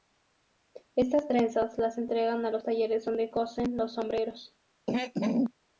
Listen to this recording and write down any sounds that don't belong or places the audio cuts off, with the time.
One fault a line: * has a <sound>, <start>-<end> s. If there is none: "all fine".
* has a throat clearing, 4.9-5.5 s